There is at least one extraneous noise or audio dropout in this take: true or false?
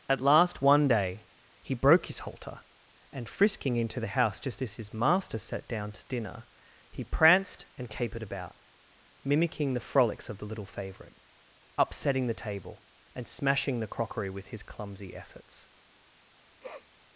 true